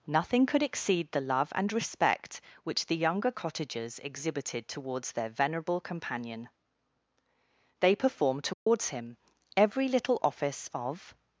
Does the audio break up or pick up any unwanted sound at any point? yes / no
yes